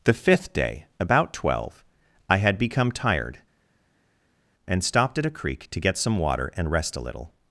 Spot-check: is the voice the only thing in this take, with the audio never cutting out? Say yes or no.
yes